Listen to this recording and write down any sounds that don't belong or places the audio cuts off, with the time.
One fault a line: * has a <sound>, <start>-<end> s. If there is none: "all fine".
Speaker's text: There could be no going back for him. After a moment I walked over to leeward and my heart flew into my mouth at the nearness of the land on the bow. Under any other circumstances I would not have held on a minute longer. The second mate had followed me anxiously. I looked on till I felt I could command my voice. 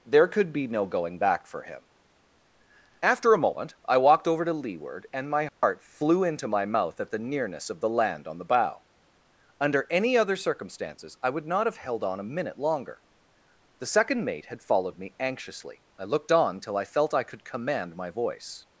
* has a dropout, 5.5-5.6 s